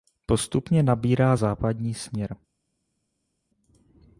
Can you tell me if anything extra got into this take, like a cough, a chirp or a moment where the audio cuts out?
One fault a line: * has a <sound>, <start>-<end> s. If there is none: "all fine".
all fine